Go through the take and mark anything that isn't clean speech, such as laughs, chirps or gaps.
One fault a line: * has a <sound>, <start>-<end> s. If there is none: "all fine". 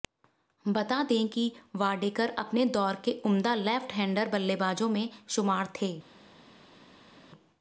all fine